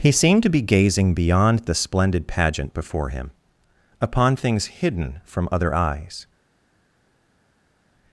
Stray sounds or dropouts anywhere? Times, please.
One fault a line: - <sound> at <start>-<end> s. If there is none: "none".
none